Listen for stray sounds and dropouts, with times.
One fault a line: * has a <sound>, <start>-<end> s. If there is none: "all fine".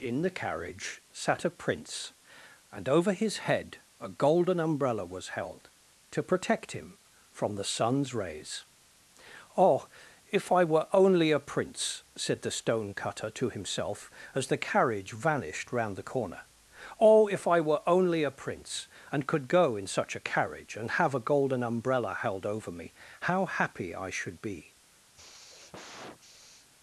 * has a sigh, 25.1-26.7 s